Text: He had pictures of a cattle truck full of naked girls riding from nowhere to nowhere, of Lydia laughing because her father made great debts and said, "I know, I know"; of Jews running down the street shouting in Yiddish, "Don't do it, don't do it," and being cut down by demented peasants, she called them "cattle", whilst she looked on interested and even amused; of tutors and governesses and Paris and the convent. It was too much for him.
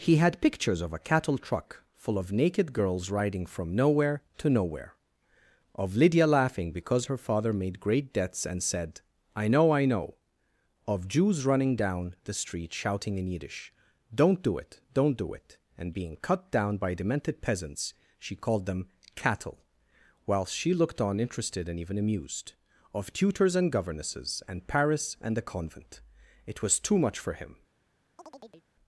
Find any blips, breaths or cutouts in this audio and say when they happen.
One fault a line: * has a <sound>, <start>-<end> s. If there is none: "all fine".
* has a chirp, 28.2-28.7 s